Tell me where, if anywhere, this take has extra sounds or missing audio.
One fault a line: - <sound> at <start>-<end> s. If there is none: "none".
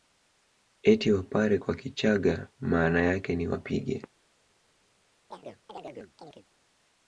- chirp at 5.3-6.5 s